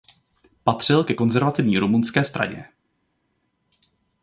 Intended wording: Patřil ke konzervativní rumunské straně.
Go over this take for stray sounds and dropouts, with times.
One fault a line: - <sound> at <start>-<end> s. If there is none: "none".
none